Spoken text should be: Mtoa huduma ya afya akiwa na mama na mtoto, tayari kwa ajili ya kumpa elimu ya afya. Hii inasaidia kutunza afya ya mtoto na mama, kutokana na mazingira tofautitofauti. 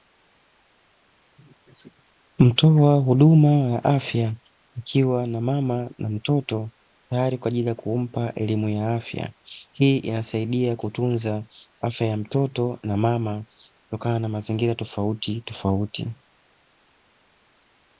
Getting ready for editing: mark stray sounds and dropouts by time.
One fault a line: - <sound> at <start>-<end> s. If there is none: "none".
none